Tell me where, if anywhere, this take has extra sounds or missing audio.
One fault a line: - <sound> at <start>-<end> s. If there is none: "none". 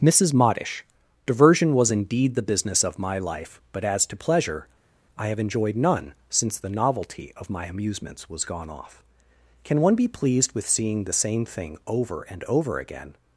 none